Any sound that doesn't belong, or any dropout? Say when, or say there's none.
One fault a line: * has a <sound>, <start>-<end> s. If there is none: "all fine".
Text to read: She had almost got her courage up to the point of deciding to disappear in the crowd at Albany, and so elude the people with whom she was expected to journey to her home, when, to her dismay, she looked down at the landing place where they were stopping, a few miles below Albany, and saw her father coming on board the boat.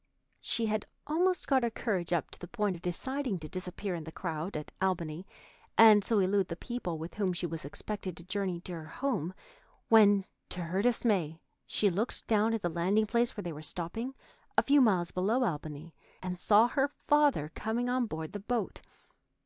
all fine